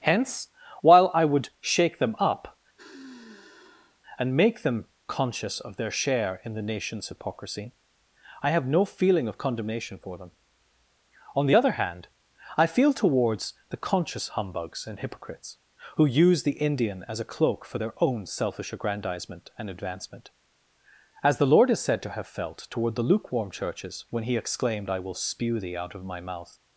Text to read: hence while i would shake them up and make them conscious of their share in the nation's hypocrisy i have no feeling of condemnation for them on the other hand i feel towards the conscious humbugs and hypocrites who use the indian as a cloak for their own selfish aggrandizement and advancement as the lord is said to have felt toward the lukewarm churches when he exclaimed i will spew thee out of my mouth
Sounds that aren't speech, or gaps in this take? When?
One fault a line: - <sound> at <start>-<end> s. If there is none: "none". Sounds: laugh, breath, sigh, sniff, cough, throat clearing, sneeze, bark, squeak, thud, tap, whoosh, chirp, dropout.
- sigh at 2.8-4.0 s